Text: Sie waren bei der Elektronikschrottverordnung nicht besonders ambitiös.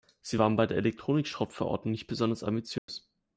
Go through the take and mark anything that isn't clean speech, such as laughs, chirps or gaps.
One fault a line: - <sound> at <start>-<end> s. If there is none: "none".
- dropout at 2.8-2.9 s